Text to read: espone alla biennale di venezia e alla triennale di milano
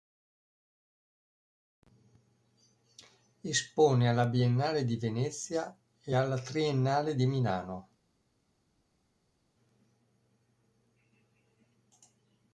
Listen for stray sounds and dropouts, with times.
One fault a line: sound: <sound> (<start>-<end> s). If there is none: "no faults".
no faults